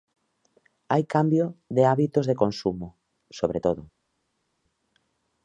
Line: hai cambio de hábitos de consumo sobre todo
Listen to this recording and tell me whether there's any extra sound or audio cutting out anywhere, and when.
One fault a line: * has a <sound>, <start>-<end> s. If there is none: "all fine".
all fine